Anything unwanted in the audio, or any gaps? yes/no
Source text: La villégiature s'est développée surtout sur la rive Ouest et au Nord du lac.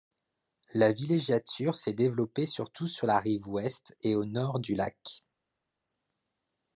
no